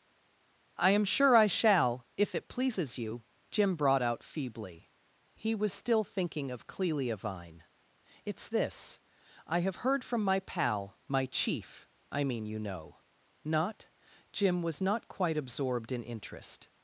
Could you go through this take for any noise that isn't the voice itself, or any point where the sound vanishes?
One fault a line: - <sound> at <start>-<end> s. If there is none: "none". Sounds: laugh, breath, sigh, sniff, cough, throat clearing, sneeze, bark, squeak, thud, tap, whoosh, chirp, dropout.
none